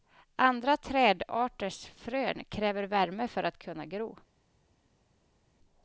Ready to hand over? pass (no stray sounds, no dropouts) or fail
pass